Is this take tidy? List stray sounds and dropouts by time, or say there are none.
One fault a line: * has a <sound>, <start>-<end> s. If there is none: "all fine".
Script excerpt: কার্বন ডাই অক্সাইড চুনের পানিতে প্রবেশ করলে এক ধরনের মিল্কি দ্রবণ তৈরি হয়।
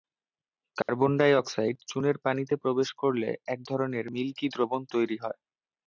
* has a dropout, 0.8-0.9 s